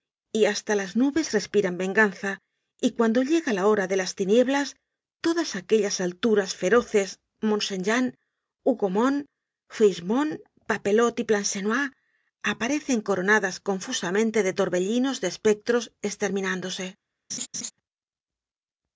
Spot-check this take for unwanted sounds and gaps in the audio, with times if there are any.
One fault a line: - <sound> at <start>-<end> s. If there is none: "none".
- laugh at 17.3-17.7 s